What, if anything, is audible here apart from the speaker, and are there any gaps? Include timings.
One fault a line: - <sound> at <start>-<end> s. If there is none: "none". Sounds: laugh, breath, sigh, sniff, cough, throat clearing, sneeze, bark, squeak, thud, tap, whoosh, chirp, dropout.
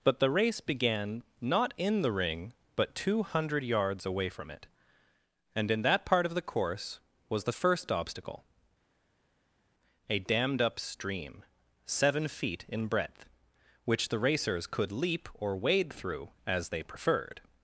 none